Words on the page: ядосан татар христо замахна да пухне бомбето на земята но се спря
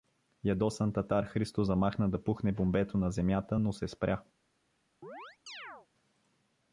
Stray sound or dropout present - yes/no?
yes